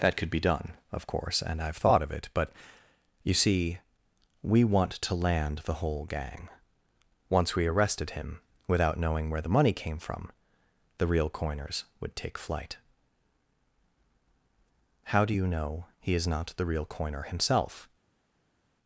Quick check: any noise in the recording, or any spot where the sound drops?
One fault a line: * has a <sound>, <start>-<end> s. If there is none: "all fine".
all fine